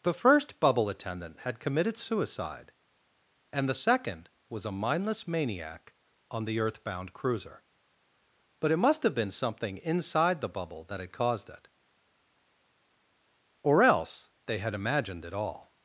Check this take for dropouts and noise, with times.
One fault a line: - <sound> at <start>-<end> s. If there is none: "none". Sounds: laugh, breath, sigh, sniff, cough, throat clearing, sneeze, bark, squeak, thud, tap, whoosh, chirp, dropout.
none